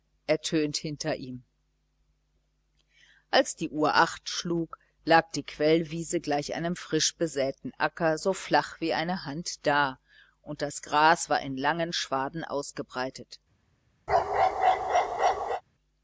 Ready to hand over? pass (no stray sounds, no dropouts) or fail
fail